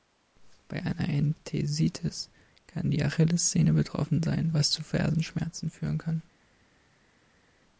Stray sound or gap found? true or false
false